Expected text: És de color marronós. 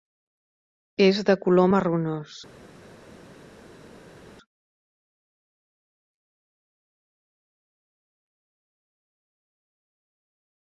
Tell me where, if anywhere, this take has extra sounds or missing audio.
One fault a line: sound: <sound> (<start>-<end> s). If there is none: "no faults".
no faults